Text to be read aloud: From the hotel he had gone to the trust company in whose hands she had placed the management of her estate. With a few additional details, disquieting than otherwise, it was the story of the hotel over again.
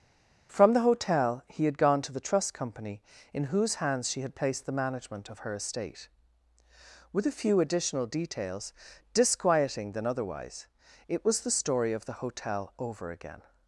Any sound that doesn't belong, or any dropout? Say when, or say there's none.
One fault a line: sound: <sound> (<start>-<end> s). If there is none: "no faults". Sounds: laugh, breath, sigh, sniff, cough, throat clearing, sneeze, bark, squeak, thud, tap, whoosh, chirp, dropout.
no faults